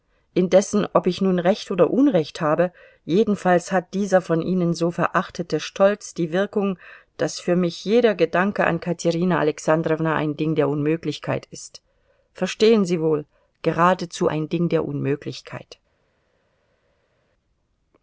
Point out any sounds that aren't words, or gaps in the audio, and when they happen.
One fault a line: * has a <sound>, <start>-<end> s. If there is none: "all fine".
all fine